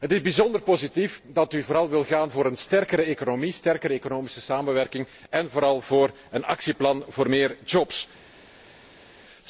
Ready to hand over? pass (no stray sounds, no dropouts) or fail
pass